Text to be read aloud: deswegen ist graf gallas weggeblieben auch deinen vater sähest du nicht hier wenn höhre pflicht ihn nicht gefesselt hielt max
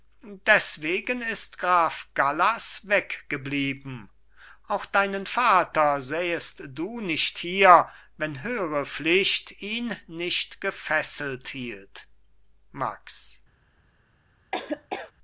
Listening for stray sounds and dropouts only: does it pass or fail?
fail